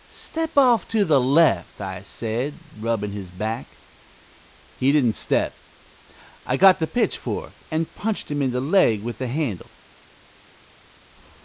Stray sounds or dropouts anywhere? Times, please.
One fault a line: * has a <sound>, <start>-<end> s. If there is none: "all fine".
all fine